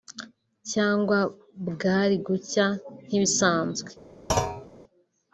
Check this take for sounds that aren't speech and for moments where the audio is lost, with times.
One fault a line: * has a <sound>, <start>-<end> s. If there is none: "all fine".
* has a thud, 4.3-4.7 s